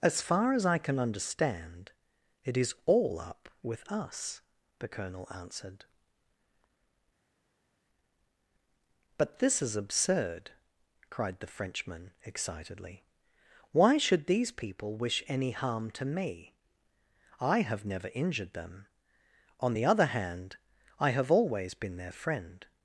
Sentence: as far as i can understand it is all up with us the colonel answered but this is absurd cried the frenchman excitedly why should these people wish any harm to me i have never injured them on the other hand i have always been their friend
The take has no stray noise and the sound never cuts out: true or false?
true